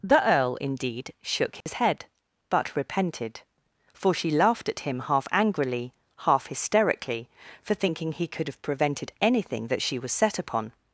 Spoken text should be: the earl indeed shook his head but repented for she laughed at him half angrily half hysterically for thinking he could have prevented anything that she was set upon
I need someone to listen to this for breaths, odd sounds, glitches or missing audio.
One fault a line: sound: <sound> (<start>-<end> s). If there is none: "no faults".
sound: dropout (1.6-1.7 s)